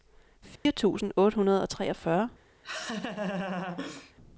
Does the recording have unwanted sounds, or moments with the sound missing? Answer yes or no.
yes